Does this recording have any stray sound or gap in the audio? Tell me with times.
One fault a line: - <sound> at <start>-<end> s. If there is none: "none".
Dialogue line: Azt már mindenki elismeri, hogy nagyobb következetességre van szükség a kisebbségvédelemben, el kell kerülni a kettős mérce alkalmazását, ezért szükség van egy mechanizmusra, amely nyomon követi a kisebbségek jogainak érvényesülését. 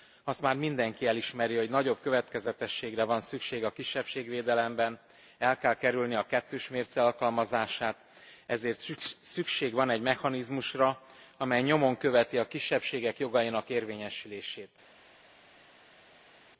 none